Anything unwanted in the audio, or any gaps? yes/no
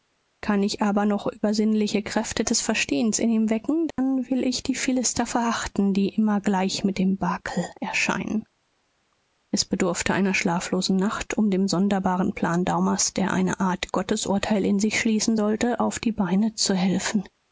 yes